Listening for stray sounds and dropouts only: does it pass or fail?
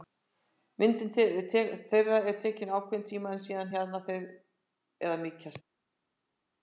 pass